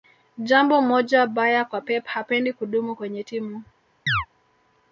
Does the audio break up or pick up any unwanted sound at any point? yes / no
yes